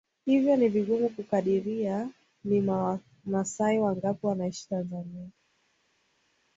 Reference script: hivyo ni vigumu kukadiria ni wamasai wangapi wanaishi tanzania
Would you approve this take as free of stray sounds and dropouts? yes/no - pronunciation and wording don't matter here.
yes